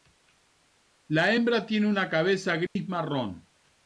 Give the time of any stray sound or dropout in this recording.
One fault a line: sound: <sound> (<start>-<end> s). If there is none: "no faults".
sound: dropout (2.7-2.8 s)